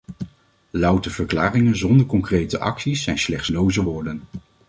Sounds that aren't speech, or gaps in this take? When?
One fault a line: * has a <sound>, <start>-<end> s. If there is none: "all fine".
all fine